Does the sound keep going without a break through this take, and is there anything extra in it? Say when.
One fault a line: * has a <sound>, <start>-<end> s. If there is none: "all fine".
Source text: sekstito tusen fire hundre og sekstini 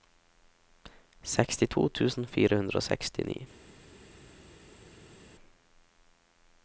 all fine